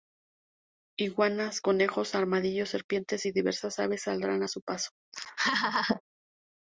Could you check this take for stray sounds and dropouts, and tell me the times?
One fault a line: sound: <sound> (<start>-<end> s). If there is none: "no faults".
sound: laugh (5.1-6.0 s)